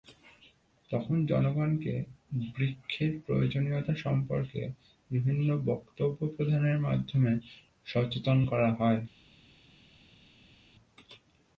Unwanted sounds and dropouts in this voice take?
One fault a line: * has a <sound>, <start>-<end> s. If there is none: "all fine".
all fine